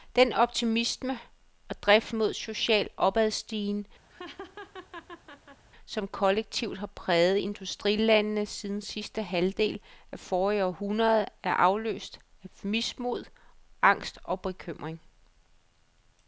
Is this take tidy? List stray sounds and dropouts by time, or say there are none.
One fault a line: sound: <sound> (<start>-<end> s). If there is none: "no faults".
sound: laugh (4.1-5.6 s)